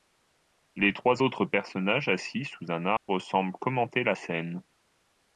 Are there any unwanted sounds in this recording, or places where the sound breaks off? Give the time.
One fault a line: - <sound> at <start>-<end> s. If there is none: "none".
- dropout at 3.0-3.1 s